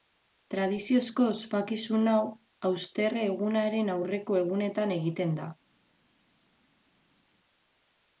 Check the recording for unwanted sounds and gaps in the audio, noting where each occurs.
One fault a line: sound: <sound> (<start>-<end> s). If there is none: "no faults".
no faults